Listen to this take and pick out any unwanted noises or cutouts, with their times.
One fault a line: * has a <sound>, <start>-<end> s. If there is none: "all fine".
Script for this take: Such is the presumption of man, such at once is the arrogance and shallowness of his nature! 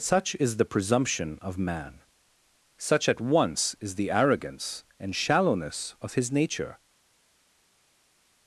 all fine